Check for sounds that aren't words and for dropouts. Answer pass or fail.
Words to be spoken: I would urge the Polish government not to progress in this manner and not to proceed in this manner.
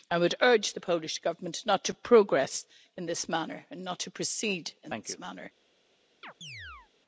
fail